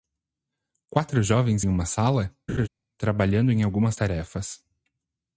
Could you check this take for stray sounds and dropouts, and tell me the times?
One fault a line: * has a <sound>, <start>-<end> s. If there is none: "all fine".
* has a laugh, 2.5-2.7 s